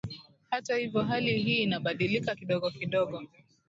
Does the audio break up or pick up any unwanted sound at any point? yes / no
no